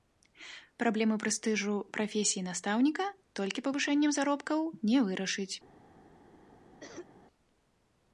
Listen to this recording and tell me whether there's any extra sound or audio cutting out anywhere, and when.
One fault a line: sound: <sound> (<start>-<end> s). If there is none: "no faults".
sound: cough (6.8-7.1 s)